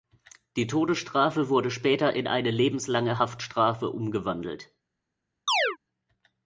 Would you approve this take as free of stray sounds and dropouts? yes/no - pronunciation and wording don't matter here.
no